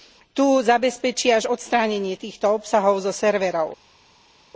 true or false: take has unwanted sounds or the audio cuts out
false